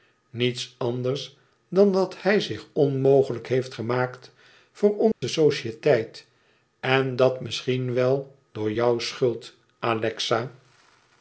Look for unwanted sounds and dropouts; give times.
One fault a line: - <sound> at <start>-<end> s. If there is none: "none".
- dropout at 5.1-5.2 s